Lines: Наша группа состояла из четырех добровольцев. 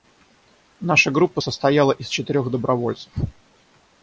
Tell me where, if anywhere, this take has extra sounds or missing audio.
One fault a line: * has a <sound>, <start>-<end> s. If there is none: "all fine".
all fine